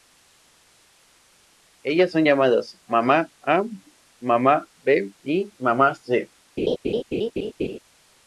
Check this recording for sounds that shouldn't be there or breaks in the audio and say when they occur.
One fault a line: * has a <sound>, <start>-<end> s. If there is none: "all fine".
* has a laugh, 6.6-7.8 s